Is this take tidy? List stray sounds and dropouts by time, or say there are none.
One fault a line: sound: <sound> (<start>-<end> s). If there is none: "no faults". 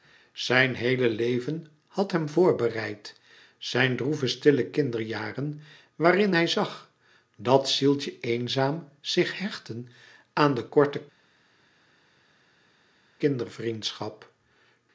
no faults